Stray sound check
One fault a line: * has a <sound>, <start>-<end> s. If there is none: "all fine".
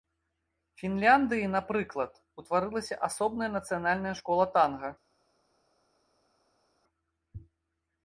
all fine